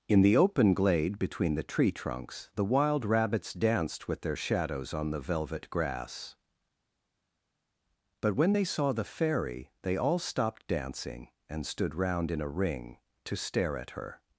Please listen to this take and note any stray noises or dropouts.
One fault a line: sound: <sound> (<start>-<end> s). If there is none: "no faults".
no faults